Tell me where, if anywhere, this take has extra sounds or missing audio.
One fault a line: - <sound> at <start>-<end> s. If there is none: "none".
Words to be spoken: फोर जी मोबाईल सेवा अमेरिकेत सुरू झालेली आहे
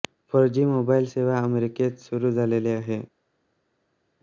none